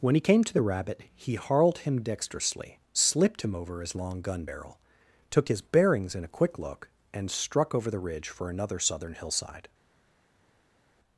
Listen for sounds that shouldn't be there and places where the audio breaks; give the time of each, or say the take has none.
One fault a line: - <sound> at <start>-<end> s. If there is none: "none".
none